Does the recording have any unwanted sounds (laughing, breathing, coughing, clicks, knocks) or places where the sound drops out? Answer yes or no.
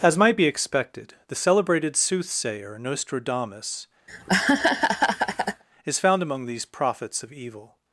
yes